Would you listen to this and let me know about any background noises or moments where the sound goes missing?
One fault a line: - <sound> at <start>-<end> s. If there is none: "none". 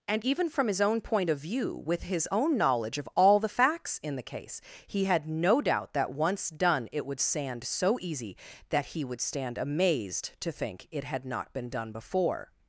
none